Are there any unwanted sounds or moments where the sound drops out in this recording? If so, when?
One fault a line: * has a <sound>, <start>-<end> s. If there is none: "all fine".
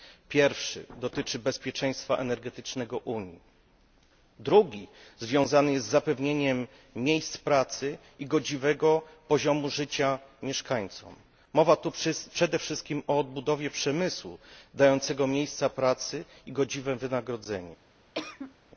* has a cough, 18.1-18.5 s